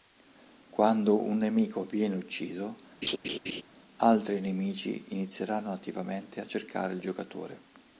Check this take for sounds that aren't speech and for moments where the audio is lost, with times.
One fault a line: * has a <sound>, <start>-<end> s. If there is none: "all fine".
* has a laugh, 3.0-3.6 s